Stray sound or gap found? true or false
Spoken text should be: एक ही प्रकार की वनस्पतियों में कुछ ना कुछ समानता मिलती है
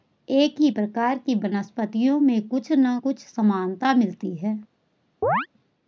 true